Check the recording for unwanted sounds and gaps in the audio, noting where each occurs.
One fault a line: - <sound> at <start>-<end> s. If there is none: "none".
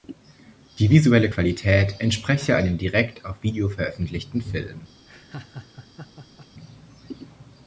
- laugh at 5.0-6.5 s